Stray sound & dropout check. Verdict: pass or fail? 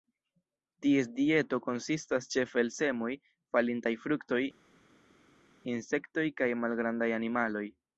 pass